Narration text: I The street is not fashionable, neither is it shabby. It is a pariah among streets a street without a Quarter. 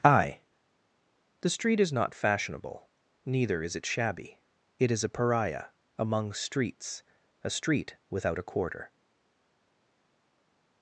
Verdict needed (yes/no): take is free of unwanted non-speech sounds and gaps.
yes